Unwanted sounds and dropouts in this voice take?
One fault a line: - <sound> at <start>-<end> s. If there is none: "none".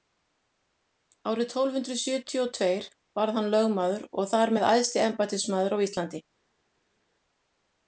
none